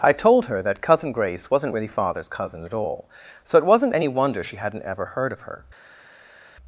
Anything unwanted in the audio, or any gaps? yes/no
no